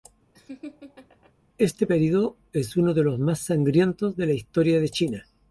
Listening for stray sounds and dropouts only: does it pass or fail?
fail